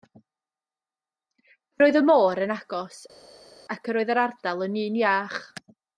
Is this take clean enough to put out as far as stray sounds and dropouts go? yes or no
yes